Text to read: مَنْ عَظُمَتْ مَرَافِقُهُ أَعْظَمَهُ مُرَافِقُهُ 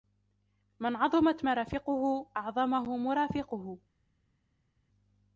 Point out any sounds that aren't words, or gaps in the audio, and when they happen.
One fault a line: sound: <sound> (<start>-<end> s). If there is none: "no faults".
no faults